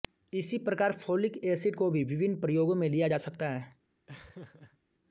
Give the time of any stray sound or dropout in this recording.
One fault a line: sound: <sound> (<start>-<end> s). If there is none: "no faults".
sound: laugh (4.1-4.8 s)